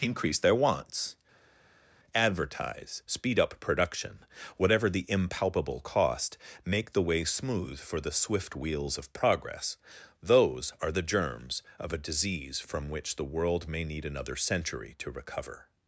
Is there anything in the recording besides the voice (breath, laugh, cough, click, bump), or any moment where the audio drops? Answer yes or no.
no